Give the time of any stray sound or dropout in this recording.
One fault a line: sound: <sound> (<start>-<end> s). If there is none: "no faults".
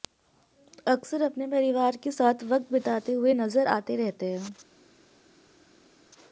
no faults